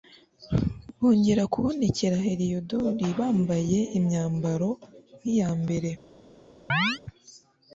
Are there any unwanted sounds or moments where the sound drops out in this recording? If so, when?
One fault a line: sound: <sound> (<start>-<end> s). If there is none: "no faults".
sound: chirp (6.7-7.0 s)